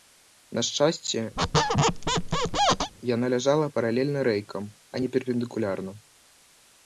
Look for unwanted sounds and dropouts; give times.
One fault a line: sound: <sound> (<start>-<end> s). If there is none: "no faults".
sound: squeak (1.4-2.9 s)